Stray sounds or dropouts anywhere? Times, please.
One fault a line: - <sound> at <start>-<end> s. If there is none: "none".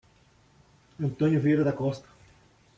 none